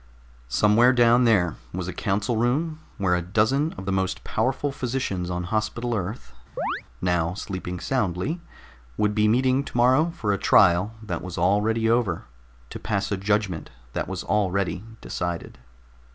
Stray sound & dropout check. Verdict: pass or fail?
fail